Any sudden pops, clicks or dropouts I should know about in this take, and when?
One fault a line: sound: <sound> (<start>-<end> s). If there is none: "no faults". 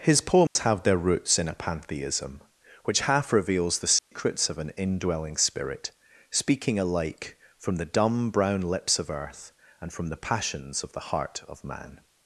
sound: dropout (0.5-0.6 s)
sound: dropout (4.0-4.1 s)